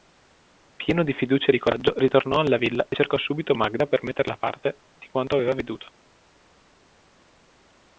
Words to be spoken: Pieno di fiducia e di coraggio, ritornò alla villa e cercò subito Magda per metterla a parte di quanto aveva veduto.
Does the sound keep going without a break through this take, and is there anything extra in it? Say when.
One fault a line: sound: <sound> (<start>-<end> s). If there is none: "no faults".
no faults